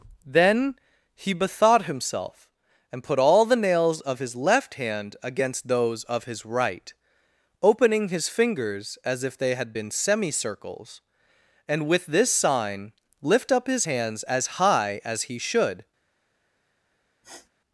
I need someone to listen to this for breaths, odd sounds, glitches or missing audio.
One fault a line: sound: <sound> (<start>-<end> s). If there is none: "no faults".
sound: sniff (17.2-17.5 s)